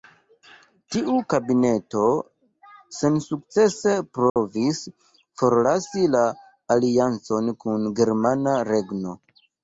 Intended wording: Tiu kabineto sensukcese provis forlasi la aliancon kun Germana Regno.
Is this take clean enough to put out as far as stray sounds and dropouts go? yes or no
no